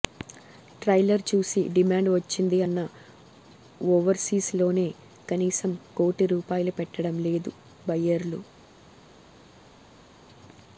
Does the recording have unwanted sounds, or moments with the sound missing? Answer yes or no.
no